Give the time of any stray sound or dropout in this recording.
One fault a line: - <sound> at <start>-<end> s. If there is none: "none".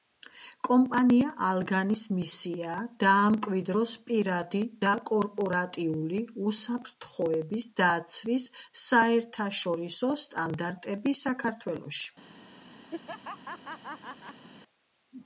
- laugh at 12.9-14.5 s